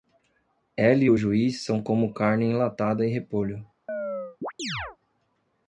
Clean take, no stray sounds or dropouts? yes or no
no